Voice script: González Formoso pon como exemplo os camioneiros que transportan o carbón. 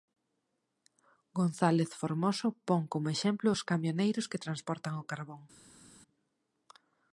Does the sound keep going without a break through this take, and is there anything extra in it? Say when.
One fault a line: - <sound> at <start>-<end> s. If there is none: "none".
none